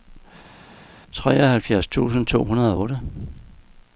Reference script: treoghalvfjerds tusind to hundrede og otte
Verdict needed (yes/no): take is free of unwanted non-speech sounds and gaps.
yes